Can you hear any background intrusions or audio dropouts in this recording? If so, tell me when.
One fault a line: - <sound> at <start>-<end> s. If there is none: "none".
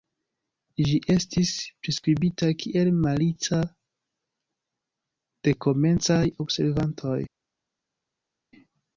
none